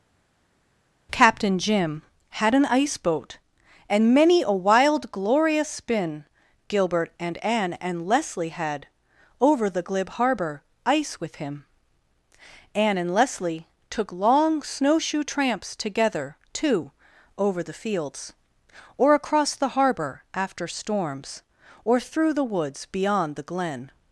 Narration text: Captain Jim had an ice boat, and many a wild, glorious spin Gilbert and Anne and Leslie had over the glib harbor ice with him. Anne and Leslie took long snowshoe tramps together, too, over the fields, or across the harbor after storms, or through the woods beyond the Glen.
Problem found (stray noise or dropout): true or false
false